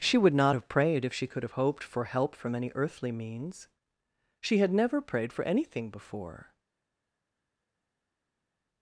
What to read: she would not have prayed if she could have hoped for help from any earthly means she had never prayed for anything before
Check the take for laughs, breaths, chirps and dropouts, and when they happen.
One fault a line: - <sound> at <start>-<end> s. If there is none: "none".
none